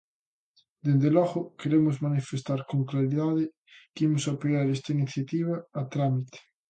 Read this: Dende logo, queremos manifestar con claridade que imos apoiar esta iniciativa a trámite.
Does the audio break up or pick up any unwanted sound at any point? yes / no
no